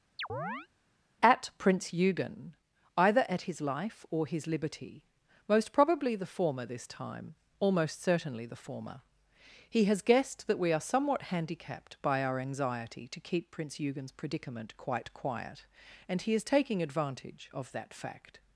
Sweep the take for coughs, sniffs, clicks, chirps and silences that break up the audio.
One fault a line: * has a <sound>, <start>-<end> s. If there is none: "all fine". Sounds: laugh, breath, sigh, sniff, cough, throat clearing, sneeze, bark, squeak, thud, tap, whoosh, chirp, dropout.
* has a chirp, 0.2-0.7 s